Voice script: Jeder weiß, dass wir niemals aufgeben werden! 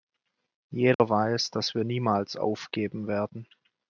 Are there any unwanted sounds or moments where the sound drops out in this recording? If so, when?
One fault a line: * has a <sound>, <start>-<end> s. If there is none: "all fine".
* has a dropout, 0.9-1.0 s